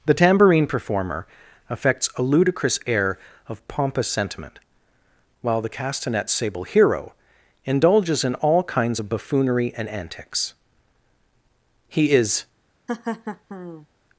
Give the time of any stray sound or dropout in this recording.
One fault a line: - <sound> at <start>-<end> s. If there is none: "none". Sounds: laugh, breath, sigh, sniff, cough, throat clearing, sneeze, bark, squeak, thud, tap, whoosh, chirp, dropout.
- laugh at 12.9-13.9 s